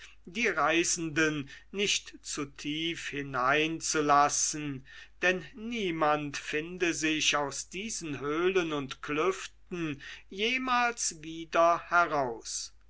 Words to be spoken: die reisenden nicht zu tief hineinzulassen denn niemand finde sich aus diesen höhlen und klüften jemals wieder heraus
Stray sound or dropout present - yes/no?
no